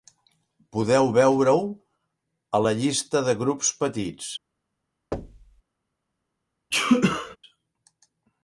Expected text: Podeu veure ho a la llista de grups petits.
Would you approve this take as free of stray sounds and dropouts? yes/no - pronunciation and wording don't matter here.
no